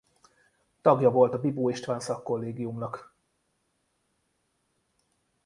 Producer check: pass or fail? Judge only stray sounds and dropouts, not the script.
pass